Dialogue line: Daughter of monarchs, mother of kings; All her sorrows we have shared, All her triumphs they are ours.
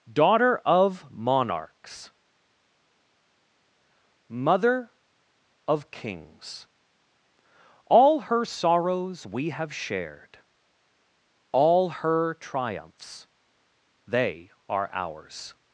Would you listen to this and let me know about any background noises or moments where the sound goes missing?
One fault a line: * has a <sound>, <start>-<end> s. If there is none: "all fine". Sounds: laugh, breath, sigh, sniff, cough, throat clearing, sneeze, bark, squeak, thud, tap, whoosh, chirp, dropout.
all fine